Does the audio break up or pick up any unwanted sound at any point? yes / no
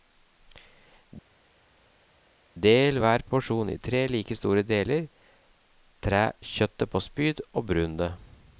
no